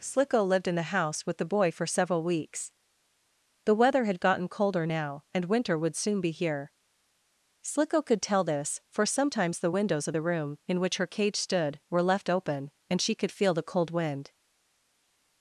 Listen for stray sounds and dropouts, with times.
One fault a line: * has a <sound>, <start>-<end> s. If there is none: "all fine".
all fine